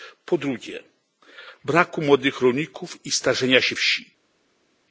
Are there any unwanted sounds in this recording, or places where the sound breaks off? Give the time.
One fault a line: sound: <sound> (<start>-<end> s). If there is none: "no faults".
no faults